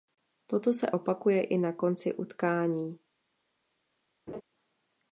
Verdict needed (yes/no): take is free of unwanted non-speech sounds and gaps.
no